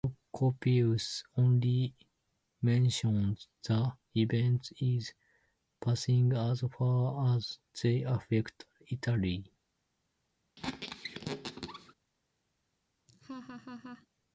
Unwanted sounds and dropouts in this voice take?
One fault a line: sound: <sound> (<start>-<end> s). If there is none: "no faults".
sound: squeak (10.6-11.9 s)
sound: laugh (13.1-14.1 s)